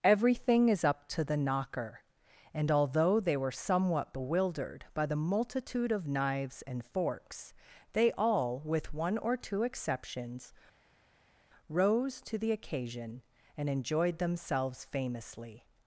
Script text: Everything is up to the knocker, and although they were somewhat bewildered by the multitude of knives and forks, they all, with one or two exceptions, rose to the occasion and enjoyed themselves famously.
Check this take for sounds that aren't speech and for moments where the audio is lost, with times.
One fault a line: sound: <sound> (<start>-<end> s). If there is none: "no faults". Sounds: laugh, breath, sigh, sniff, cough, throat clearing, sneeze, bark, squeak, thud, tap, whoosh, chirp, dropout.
no faults